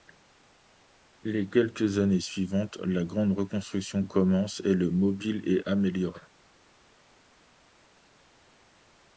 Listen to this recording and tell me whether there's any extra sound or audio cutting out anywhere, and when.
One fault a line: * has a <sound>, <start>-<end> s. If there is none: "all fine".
all fine